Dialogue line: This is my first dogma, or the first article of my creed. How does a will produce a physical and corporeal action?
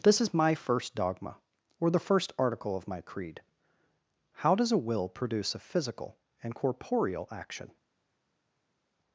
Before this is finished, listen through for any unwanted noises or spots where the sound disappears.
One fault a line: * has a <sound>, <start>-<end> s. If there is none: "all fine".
all fine